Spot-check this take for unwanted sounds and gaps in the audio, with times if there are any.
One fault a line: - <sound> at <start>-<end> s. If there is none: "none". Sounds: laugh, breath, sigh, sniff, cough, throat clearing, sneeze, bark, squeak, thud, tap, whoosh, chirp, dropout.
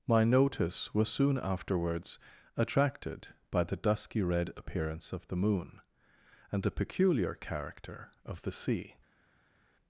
none